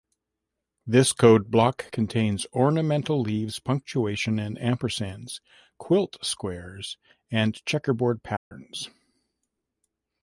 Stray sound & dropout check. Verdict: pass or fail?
fail